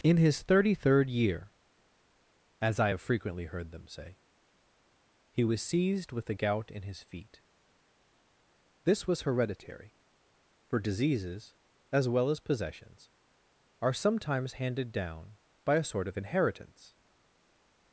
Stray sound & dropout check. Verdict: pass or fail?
pass